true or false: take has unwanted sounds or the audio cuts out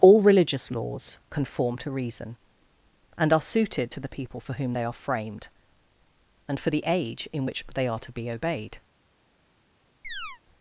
true